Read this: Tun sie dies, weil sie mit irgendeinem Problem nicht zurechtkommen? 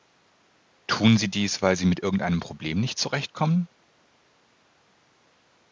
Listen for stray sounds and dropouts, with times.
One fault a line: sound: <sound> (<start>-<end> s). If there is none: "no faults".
no faults